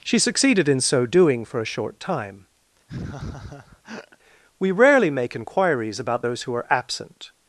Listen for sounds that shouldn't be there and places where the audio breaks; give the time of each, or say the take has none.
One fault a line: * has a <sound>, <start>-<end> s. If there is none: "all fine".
* has a laugh, 2.9-4.2 s